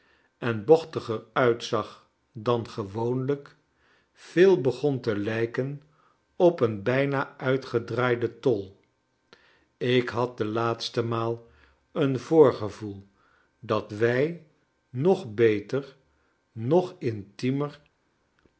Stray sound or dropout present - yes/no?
no